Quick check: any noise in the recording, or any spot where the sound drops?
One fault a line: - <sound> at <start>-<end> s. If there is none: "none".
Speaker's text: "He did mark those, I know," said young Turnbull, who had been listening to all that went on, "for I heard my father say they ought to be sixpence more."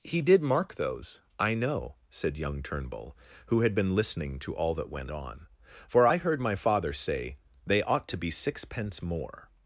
none